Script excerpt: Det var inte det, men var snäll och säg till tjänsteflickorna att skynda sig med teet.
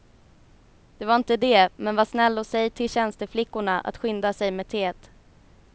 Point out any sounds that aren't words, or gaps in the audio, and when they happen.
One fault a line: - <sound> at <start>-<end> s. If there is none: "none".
none